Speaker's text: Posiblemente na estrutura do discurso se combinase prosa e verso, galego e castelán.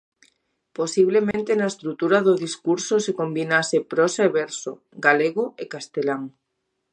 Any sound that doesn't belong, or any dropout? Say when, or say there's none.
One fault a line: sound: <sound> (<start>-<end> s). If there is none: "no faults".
sound: dropout (1.3-1.3 s)